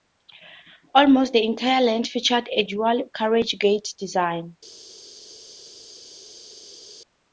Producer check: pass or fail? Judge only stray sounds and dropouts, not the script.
pass